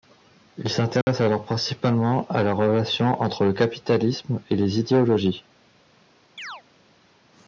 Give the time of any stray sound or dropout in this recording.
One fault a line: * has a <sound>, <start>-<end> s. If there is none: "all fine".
* has a dropout, 1.0-1.1 s
* has a chirp, 6.4-6.6 s